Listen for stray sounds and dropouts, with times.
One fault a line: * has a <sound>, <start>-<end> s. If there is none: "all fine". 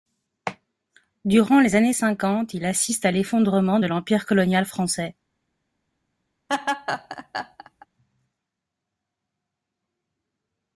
* has a laugh, 6.5-7.9 s